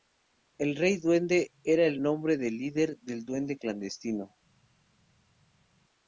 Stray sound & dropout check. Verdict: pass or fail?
pass